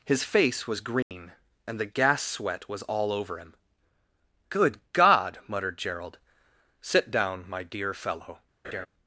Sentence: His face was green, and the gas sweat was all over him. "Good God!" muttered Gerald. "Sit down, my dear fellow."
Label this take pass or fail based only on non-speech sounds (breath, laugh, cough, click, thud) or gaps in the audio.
fail